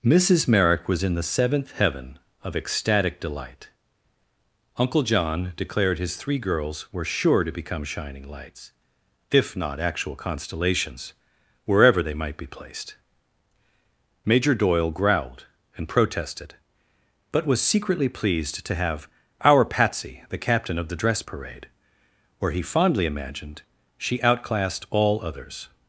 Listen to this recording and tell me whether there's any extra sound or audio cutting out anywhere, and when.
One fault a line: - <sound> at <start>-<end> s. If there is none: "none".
none